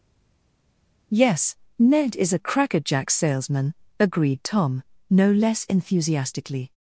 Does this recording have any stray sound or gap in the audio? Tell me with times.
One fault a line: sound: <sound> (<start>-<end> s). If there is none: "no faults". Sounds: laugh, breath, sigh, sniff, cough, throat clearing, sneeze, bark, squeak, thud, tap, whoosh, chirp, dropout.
no faults